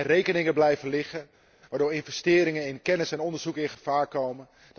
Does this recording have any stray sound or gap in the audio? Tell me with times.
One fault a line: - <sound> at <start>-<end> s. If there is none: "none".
none